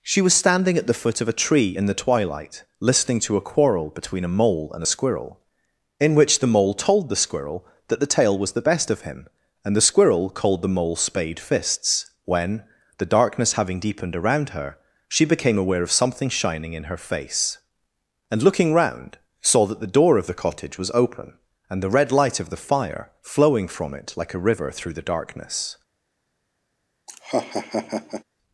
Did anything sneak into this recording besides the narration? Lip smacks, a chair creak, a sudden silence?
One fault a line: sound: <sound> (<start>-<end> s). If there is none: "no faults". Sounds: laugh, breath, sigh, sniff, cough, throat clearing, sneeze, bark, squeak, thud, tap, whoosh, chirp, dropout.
sound: laugh (27.1-28.2 s)